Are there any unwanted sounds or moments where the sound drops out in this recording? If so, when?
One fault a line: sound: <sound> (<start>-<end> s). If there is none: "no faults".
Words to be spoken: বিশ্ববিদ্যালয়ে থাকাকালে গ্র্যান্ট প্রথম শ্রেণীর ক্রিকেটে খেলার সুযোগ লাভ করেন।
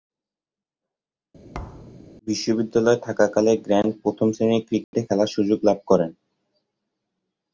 sound: thud (1.5-2.0 s)
sound: dropout (4.8-4.9 s)